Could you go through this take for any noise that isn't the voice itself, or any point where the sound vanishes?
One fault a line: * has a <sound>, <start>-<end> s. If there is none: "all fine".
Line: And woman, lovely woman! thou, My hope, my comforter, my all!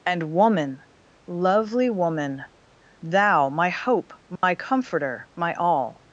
* has a dropout, 4.4-4.4 s